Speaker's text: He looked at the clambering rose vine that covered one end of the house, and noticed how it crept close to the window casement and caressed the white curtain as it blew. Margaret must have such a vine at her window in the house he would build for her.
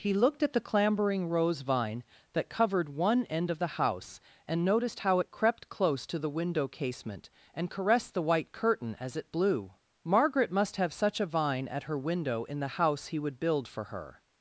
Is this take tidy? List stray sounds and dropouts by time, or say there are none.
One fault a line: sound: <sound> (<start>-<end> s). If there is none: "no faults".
no faults